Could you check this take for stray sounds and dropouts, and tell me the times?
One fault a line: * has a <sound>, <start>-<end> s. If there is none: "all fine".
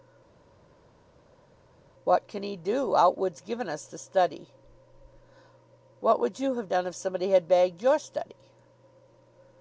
all fine